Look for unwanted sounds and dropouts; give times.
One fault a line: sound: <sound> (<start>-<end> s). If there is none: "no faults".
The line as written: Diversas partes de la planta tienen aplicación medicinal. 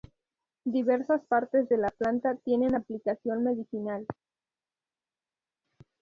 no faults